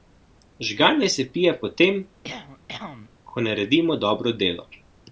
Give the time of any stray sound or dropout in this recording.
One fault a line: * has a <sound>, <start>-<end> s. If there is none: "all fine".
* has a cough, 2.2-3.1 s